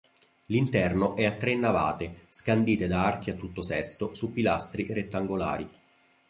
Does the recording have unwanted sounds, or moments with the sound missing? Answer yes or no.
no